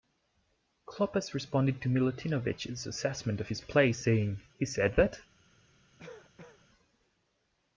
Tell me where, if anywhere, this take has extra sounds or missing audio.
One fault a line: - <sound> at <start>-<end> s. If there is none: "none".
- cough at 6.0-6.7 s